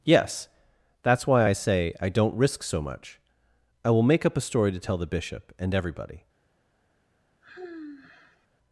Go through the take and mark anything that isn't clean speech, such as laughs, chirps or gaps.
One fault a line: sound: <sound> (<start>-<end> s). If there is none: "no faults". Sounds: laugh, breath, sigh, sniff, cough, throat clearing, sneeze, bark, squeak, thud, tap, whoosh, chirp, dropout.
sound: sigh (7.4-8.5 s)